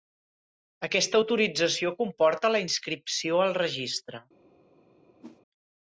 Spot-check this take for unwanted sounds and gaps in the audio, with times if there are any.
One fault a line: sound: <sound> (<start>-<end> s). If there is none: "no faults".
sound: whoosh (5.2-5.4 s)